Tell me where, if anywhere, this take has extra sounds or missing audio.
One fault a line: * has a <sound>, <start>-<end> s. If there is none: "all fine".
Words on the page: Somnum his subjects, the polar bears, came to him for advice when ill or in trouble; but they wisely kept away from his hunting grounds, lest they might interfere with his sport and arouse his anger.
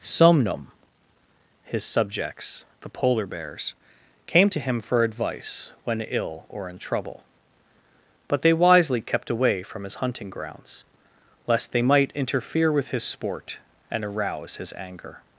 all fine